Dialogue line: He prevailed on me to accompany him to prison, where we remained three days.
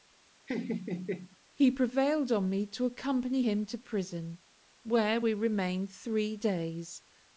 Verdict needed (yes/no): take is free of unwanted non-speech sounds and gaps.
no